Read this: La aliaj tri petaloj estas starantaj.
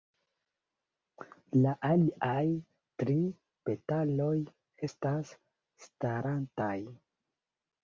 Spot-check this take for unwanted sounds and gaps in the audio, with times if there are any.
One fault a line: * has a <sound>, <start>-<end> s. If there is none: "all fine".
all fine